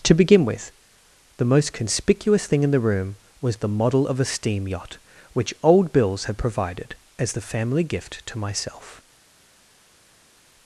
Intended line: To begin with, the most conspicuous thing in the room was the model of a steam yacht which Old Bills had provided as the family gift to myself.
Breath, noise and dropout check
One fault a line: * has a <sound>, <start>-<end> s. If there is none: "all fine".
all fine